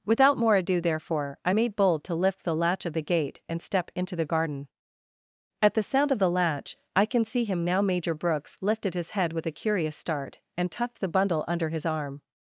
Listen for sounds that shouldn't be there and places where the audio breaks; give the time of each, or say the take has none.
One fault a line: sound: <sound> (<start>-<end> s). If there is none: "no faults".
no faults